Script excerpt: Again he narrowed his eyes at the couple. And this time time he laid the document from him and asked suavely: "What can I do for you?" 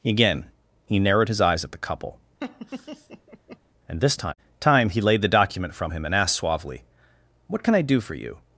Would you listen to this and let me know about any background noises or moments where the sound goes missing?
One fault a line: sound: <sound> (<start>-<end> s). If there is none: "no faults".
sound: laugh (2.4-3.6 s)